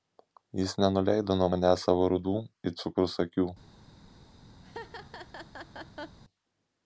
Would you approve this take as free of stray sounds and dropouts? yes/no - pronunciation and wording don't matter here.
no